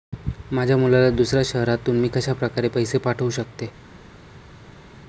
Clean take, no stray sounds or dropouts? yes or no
yes